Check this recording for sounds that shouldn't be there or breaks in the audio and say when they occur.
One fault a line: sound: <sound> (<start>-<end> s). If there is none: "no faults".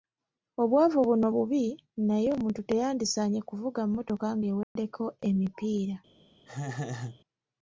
sound: dropout (4.6-4.8 s)
sound: laugh (6.5-7.2 s)